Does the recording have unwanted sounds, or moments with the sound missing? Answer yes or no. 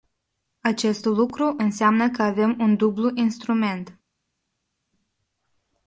no